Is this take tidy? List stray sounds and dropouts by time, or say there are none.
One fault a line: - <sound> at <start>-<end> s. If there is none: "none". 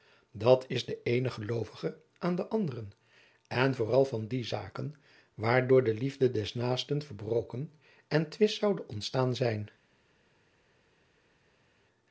none